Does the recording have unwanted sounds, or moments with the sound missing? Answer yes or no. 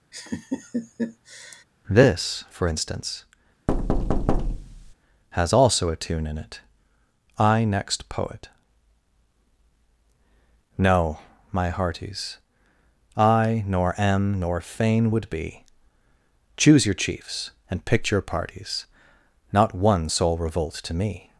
yes